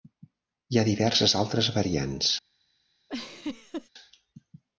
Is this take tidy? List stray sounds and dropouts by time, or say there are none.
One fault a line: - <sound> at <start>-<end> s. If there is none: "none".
- laugh at 3.1-3.9 s